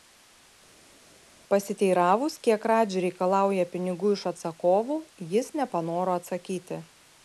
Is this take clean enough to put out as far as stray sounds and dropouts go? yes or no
yes